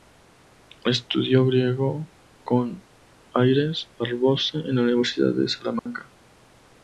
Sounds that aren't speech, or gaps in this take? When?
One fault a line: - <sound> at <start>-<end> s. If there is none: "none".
- dropout at 5.8-5.9 s